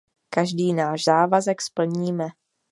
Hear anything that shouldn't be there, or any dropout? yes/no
no